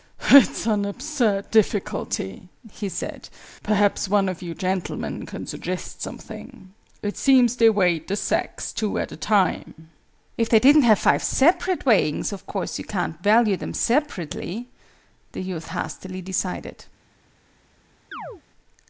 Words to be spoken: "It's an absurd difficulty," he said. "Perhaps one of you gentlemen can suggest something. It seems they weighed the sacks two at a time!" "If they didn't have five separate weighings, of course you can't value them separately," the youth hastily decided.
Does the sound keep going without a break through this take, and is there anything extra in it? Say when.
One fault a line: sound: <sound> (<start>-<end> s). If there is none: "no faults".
sound: chirp (18.1-18.4 s)